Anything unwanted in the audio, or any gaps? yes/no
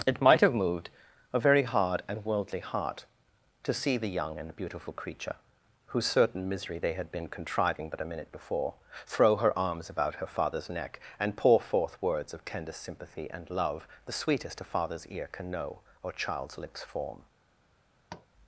yes